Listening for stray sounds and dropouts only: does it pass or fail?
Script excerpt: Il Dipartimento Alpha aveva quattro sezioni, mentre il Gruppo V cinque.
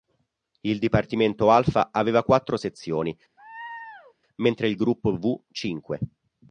fail